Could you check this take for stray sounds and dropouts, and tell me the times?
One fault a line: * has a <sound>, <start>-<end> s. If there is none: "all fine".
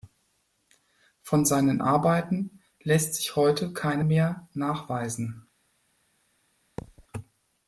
* has a thud, 6.8-7.1 s